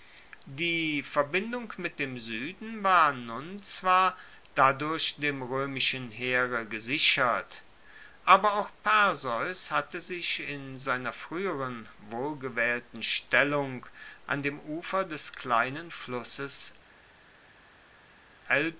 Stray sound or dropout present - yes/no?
no